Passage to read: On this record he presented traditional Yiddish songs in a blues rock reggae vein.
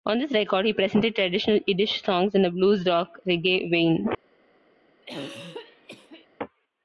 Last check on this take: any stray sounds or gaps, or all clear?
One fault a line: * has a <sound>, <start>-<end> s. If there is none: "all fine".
* has a throat clearing, 5.0-6.3 s